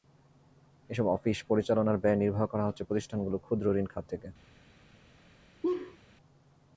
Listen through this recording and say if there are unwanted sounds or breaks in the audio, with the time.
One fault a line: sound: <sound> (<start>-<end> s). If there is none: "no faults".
sound: laugh (5.6-6.0 s)